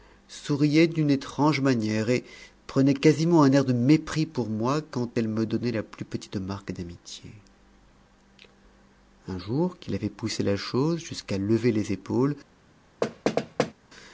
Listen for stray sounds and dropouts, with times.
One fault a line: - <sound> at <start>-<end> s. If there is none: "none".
- thud at 13.0-13.7 s